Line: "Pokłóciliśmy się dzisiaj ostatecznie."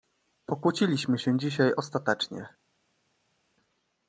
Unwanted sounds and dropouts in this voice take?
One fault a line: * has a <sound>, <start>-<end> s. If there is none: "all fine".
all fine